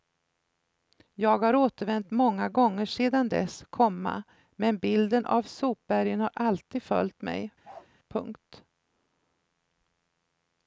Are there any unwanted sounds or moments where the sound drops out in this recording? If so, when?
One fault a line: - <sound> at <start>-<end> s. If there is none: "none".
- bark at 7.6-7.9 s